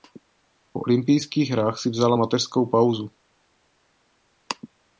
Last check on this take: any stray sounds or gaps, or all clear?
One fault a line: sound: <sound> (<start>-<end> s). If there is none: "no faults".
no faults